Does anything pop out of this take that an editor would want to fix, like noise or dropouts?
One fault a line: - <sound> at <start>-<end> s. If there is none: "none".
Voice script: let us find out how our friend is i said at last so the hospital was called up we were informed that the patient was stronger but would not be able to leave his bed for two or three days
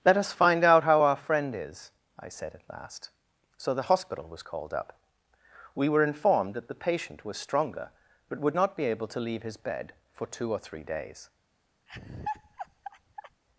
- laugh at 11.9-13.4 s